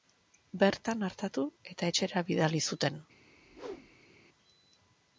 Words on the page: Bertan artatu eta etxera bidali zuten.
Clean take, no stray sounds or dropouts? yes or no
no